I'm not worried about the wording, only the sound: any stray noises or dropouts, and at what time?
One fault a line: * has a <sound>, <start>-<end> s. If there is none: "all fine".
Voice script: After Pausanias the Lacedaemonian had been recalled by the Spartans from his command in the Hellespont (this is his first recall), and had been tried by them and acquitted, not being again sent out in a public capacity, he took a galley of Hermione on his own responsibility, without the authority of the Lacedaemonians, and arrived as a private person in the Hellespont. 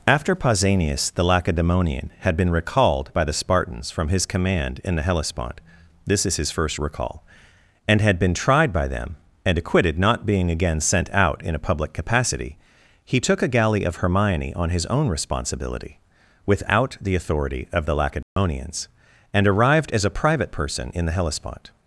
* has a dropout, 18.2-18.4 s